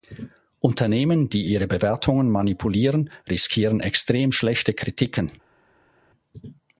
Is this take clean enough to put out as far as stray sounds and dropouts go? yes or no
yes